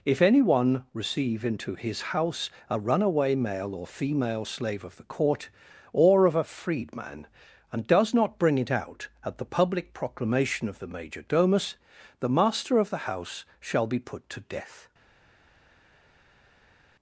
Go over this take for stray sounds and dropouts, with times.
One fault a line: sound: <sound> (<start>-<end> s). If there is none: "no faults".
no faults